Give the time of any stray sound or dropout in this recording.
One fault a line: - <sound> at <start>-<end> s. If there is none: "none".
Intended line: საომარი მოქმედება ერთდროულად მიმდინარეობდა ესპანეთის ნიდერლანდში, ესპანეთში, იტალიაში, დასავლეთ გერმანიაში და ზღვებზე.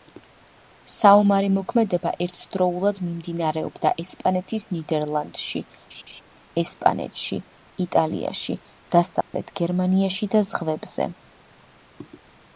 - laugh at 5.9-6.2 s
- dropout at 9.2-9.3 s